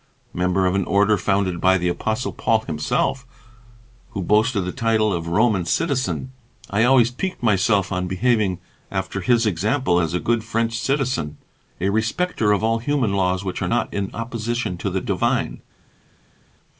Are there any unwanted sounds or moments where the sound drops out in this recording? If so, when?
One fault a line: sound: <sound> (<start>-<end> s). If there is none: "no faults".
no faults